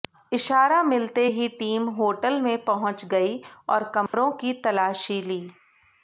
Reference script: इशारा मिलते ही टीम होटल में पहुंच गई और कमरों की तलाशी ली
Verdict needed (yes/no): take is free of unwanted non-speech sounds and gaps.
no